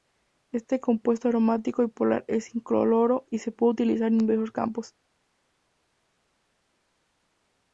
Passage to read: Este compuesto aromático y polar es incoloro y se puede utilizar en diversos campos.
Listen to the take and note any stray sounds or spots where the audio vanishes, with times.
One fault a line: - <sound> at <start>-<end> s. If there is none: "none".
none